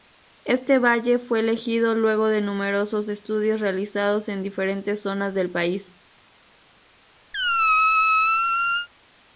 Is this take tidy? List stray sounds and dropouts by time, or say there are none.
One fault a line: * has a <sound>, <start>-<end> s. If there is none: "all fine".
* has a squeak, 7.3-8.9 s